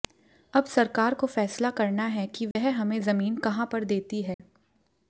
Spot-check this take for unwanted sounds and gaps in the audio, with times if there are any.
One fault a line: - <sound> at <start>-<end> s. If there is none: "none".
- dropout at 2.5-2.6 s
- dropout at 4.3-4.4 s